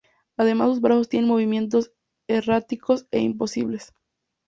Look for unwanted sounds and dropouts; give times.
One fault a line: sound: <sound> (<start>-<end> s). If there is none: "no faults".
no faults